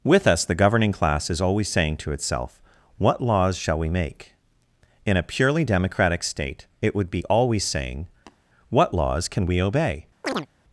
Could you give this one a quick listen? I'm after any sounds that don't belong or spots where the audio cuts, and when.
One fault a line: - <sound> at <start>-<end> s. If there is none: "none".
- tap at 8.3-8.4 s
- chirp at 10.2-10.5 s